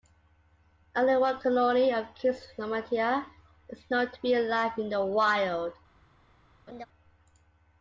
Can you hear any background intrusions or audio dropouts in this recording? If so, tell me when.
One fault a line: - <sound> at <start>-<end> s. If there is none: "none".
- laugh at 6.7-6.9 s